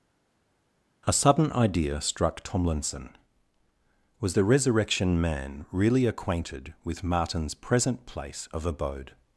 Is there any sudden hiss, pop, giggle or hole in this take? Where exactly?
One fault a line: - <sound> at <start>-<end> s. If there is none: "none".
none